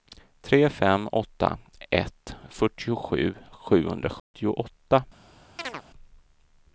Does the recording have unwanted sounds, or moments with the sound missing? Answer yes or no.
yes